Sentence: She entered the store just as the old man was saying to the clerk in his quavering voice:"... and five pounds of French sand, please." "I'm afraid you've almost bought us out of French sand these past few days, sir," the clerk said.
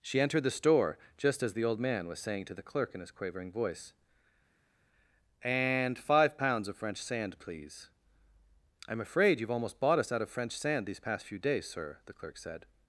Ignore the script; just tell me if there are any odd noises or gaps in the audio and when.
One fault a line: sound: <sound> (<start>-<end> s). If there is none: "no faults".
no faults